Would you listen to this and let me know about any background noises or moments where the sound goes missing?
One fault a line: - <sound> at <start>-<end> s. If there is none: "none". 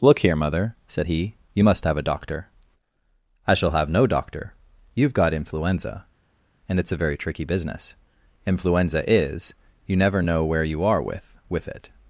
none